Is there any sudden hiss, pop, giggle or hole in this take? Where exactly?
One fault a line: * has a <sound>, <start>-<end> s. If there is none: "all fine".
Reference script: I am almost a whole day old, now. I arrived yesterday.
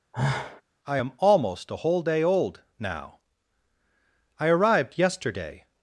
* has a sigh, 0.1-0.6 s